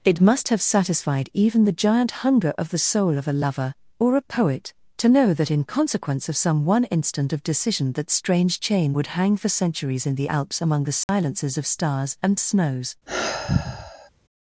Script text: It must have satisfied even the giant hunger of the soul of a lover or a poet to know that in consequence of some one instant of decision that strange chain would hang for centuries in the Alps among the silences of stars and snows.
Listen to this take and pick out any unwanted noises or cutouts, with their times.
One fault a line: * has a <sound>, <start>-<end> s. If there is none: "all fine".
* has a dropout, 11.0-11.1 s
* has a sigh, 13.1-14.1 s